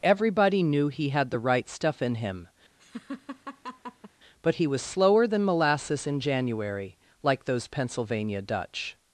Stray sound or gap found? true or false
true